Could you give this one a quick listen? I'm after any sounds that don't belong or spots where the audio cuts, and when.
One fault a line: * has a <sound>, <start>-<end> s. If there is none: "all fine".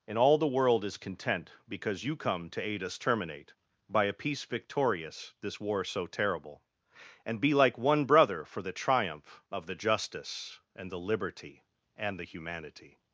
all fine